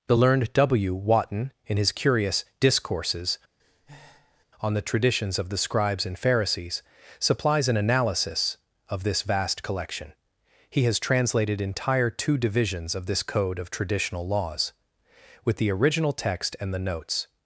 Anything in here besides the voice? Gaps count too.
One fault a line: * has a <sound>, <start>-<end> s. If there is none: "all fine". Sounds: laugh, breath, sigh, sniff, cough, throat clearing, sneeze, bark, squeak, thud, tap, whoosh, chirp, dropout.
* has a breath, 3.6-4.4 s